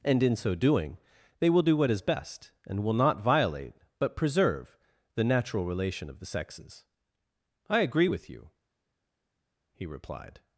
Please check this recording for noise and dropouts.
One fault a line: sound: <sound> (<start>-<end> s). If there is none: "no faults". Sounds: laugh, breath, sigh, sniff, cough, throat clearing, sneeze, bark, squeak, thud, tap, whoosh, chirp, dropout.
no faults